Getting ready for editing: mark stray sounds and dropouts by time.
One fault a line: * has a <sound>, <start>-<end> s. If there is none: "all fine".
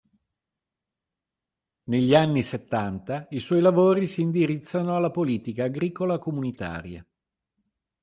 all fine